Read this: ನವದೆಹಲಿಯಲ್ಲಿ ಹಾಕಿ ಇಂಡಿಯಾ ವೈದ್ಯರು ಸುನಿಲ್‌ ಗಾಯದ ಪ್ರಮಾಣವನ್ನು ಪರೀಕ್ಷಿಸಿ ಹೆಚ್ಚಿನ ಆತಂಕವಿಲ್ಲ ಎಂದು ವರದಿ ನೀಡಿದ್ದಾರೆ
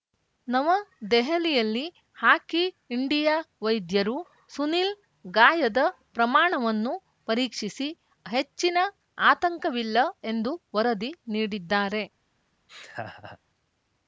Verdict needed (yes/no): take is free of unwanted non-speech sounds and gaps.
no